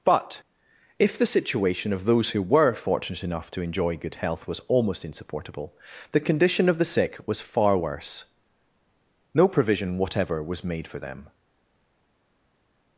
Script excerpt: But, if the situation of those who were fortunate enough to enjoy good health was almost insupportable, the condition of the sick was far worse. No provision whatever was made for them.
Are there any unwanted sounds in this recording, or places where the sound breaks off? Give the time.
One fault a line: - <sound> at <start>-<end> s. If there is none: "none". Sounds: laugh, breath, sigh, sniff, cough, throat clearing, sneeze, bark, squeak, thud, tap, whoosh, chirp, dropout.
none